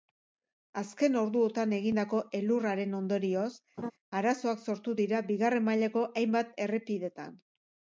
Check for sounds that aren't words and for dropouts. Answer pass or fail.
fail